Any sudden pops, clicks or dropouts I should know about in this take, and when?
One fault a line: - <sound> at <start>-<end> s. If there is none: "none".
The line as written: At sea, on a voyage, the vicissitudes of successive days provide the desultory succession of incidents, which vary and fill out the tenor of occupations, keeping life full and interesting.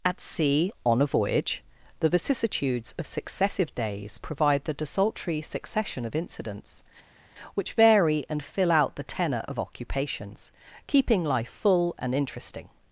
none